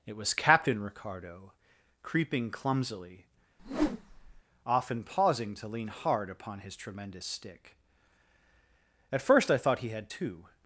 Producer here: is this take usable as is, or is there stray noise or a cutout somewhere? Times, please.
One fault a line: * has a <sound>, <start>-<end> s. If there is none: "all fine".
* has a whoosh, 3.6-4.4 s